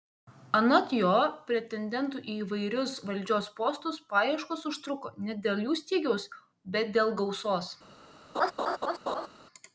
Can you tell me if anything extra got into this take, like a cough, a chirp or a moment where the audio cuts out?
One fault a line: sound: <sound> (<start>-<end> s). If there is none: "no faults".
sound: laugh (8.3-9.3 s)